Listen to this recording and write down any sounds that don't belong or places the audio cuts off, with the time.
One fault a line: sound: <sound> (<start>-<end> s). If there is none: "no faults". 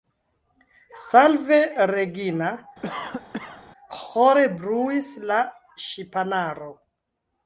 sound: cough (2.8-3.6 s)